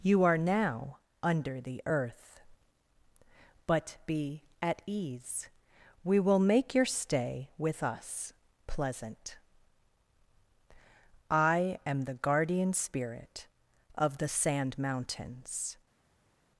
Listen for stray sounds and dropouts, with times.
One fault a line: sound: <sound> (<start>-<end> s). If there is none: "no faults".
no faults